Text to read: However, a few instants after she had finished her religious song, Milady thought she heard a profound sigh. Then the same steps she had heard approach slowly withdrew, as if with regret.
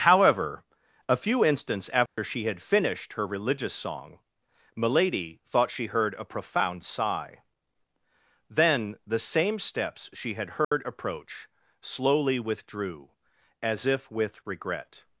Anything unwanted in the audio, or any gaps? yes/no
yes